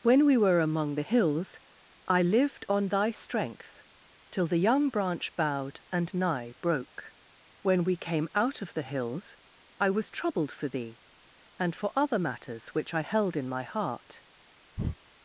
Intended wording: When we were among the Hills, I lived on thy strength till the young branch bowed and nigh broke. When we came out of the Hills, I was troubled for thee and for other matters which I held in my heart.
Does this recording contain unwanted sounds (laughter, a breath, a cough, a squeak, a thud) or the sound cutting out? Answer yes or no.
yes